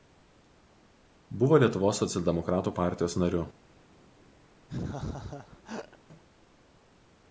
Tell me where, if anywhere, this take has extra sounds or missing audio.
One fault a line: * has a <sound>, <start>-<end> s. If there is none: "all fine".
* has a laugh, 4.7-6.0 s